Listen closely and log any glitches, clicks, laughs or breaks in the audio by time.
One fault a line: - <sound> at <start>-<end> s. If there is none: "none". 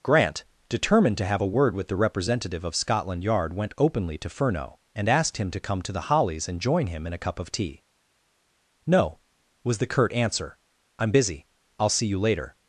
none